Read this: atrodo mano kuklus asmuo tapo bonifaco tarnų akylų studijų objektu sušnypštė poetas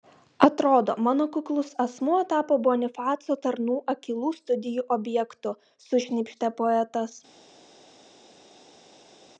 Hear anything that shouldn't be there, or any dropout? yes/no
no